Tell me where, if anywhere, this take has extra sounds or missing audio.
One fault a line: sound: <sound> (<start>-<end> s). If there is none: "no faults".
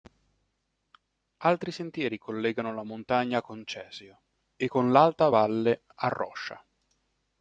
no faults